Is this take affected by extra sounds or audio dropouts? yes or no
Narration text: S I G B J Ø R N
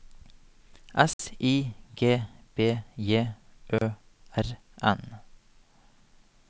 yes